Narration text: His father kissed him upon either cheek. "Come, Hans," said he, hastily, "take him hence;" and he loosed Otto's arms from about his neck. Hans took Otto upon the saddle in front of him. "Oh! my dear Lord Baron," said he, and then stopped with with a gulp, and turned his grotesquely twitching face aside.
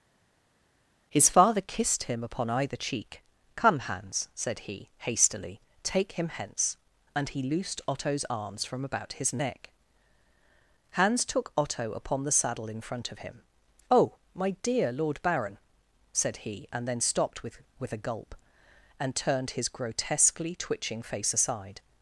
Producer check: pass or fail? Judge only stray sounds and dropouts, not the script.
pass